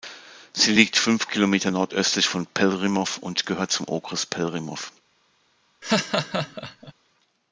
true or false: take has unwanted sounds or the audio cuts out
true